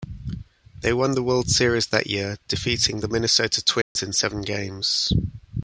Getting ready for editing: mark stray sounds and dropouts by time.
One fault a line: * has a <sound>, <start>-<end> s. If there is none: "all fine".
* has a dropout, 3.8-4.0 s